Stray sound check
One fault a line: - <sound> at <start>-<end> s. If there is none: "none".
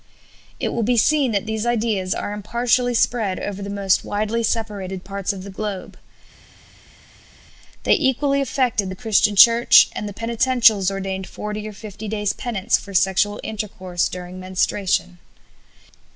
none